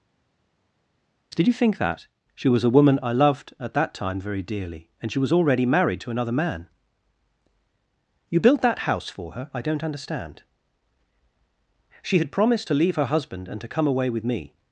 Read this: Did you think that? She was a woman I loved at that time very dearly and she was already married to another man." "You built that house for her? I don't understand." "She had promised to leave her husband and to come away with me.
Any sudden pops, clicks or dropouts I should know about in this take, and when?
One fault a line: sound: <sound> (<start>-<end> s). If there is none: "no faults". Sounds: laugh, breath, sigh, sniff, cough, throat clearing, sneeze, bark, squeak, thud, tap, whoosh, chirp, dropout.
no faults